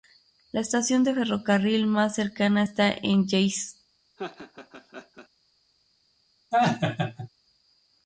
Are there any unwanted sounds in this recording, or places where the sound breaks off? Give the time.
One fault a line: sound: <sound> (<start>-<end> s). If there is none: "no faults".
sound: laugh (4.2-5.3 s)
sound: laugh (6.5-7.3 s)